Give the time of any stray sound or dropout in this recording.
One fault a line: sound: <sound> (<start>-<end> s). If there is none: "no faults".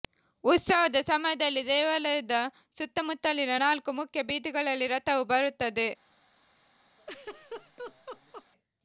sound: laugh (7.0-8.5 s)